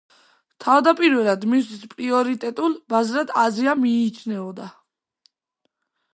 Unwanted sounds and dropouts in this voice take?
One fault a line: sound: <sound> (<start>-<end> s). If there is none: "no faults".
no faults